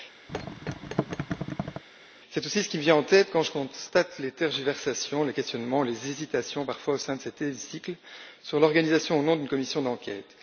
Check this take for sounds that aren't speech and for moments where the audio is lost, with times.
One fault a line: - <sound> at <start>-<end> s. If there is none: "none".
- thud at 0.3-1.8 s